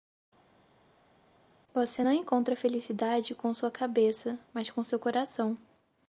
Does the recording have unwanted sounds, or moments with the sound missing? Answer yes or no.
no